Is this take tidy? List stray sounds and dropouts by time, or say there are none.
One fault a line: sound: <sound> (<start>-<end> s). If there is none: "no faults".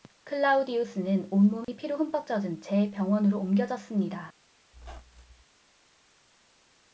sound: dropout (1.6-1.7 s)
sound: squeak (4.7-5.4 s)